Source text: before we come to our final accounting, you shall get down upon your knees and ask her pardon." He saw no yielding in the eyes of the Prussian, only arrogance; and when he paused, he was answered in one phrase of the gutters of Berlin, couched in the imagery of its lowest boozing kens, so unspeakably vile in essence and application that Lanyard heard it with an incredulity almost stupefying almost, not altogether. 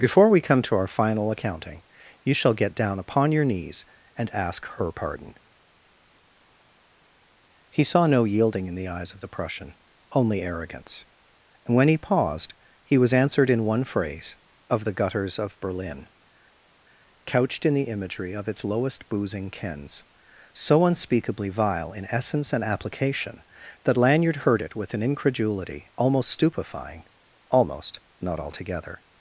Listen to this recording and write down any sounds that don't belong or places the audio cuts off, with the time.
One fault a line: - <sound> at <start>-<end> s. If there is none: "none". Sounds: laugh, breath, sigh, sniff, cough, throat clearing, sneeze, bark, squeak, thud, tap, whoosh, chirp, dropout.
none